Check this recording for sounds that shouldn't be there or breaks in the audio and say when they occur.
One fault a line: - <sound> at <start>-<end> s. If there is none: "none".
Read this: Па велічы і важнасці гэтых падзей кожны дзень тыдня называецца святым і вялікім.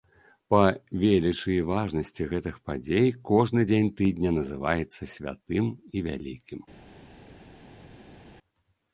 none